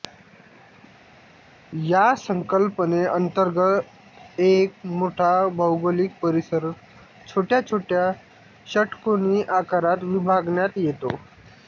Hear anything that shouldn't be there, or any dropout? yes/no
no